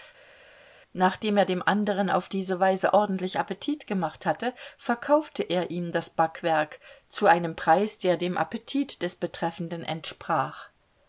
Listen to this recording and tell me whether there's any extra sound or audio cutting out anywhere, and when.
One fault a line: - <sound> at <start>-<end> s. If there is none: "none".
none